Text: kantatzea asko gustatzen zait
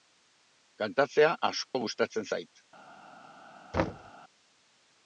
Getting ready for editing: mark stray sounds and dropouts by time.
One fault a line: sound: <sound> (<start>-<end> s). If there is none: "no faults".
sound: dropout (1.7-1.7 s)
sound: thud (3.7-4.1 s)